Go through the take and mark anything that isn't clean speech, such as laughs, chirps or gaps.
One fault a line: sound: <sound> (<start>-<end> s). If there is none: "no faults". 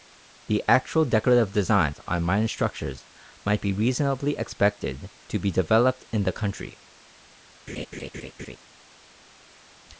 sound: laugh (7.7-8.6 s)